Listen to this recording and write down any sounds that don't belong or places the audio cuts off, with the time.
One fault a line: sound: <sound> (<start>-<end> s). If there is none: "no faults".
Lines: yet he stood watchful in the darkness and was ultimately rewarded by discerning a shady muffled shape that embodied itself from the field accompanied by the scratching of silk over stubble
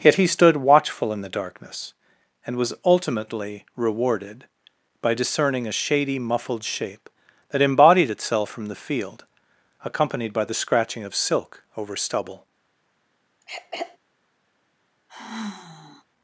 sound: throat clearing (13.4-14.0 s)
sound: sigh (15.1-16.0 s)